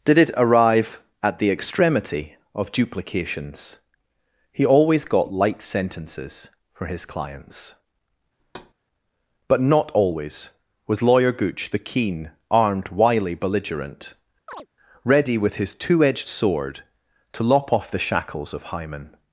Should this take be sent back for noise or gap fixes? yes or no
yes